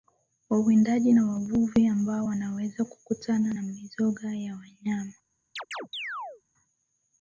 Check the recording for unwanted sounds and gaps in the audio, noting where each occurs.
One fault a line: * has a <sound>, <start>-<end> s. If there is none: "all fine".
* has a chirp, 5.6-6.4 s